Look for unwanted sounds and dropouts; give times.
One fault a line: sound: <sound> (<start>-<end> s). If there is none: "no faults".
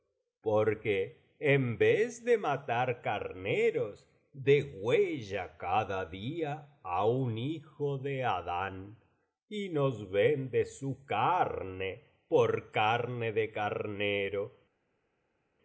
no faults